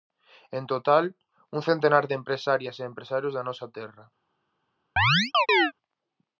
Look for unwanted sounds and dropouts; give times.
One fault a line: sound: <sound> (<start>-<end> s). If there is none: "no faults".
sound: chirp (5.0-5.7 s)